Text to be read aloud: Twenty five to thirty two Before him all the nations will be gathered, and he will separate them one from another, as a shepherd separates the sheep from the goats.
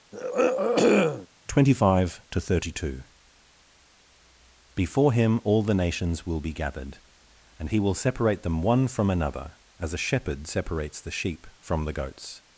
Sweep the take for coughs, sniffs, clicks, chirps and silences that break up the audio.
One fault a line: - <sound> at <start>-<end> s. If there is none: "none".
- throat clearing at 0.1-1.3 s